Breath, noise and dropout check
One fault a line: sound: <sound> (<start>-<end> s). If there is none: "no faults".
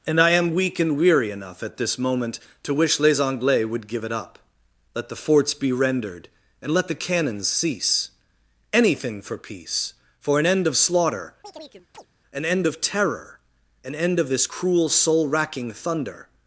sound: chirp (11.4-12.1 s)